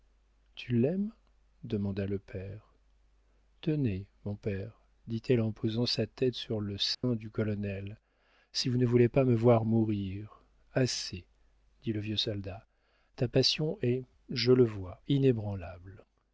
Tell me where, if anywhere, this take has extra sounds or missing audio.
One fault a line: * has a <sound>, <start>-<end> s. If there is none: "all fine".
* has a dropout, 6.9-7.0 s